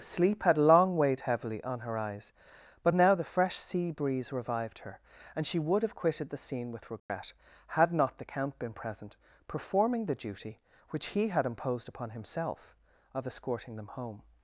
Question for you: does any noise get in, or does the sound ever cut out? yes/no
yes